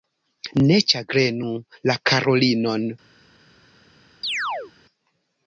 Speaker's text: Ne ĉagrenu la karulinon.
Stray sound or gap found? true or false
true